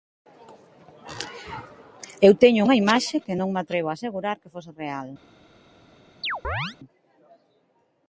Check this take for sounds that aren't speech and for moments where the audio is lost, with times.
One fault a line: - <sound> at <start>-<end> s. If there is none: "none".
- chirp at 6.2-6.8 s